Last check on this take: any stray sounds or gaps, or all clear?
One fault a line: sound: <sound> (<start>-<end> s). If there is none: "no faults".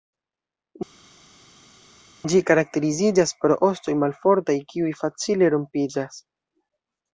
no faults